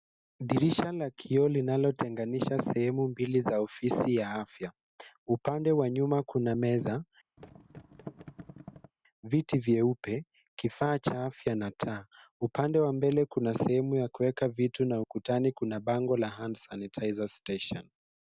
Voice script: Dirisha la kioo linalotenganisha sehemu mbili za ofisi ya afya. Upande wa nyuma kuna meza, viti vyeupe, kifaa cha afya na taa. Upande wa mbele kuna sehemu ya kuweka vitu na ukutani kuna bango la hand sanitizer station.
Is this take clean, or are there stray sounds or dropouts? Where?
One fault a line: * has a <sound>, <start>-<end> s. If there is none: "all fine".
* has a thud, 7.4-8.9 s